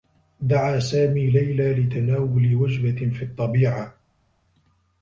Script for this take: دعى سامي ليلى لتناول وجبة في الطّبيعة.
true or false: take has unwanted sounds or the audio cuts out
false